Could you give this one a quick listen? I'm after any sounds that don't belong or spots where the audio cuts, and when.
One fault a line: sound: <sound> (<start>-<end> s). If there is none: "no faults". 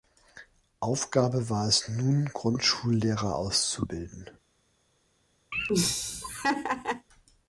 sound: laugh (5.5-7.1 s)